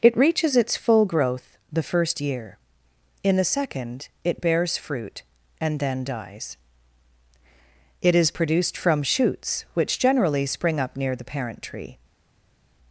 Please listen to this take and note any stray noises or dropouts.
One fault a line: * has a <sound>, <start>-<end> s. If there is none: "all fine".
all fine